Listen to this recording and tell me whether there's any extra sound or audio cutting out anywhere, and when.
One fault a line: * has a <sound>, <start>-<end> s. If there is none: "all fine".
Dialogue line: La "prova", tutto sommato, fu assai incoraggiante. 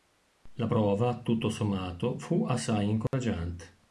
* has a dropout, 3.1-3.1 s